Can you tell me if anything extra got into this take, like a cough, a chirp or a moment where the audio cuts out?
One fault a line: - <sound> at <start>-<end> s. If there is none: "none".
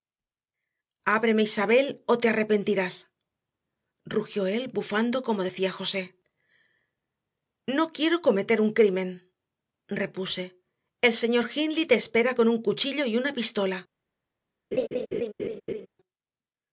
- laugh at 14.7-15.9 s